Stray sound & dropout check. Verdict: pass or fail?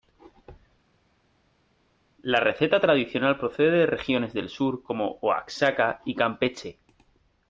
pass